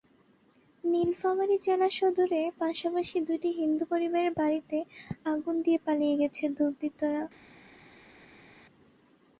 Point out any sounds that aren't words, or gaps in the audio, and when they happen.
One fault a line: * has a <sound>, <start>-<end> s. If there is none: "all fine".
all fine